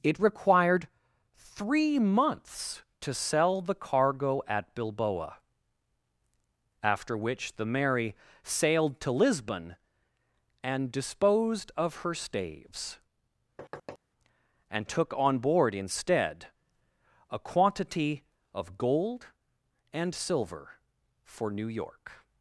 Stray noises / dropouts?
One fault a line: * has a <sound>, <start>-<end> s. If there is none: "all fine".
* has a thud, 13.6-14.0 s